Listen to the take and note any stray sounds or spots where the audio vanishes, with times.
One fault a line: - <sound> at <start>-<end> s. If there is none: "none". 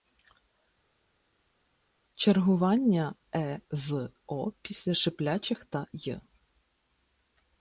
none